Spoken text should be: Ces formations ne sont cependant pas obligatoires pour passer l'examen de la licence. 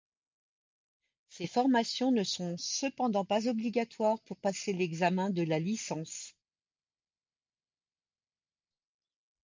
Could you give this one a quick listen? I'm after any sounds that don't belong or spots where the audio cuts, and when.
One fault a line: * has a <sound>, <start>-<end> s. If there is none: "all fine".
all fine